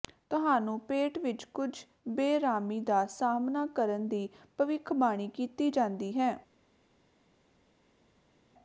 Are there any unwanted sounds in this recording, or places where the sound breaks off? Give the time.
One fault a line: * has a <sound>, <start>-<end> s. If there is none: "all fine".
all fine